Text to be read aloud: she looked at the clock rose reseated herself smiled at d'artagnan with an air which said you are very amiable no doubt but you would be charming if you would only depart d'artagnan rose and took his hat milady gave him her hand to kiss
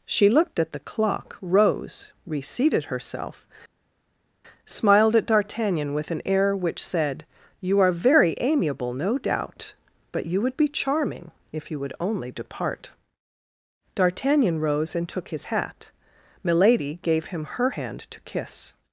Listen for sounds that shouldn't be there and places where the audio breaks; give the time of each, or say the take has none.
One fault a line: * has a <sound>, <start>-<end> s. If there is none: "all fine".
all fine